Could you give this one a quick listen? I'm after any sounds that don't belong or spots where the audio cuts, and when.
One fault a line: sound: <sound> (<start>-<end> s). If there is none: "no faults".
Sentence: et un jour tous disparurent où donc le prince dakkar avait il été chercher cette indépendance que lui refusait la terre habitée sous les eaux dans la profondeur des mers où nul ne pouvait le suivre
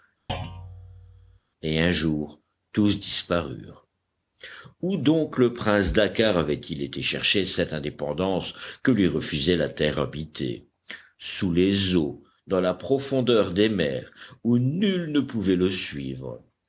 sound: thud (0.3-1.4 s)